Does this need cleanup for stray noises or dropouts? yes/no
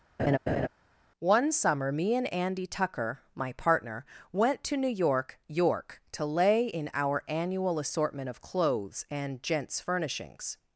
yes